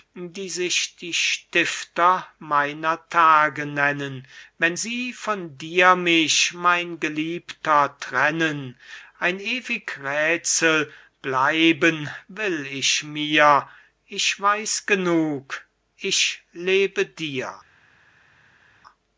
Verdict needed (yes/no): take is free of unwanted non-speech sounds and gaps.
yes